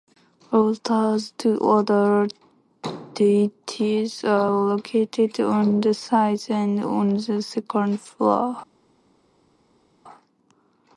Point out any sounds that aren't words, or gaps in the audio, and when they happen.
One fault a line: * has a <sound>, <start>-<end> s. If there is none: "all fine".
all fine